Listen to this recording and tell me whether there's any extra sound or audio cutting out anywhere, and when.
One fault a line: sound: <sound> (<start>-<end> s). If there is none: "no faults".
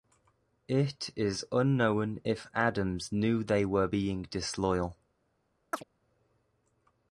sound: chirp (5.7-5.8 s)